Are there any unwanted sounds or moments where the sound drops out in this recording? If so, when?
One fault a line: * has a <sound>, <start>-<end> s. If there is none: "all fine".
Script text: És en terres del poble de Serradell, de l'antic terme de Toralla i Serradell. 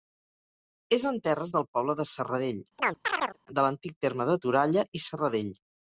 * has a chirp, 2.8-3.4 s